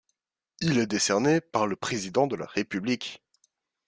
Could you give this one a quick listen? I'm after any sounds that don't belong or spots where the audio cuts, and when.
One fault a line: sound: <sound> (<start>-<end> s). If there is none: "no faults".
no faults